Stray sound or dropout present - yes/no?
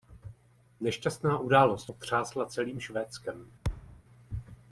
yes